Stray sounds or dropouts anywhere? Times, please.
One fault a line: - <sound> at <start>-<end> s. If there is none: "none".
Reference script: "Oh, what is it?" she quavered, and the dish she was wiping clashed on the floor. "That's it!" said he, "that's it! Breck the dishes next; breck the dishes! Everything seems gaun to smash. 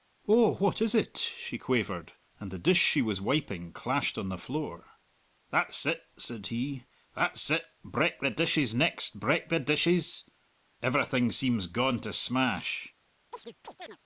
- chirp at 13.3-14.0 s